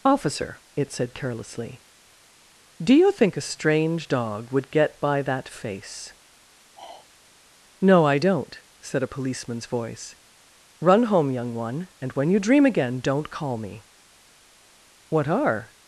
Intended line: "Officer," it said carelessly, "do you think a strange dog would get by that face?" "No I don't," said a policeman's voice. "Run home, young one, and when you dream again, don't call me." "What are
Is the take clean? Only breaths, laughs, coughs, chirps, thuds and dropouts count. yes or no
no